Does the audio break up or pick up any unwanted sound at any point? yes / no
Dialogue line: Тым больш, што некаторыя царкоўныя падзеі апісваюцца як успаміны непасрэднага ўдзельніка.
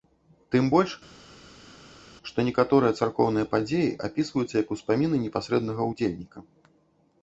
no